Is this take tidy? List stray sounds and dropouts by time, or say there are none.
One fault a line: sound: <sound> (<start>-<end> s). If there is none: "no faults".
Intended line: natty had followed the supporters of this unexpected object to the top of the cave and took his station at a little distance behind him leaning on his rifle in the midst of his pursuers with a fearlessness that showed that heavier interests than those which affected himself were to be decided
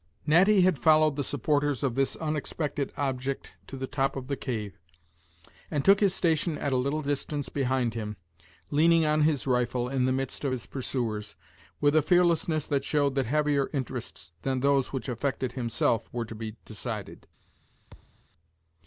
sound: thud (17.9-18.3 s)